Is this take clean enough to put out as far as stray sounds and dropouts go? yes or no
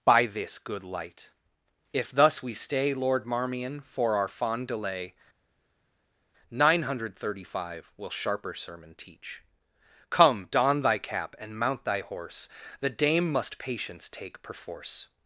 yes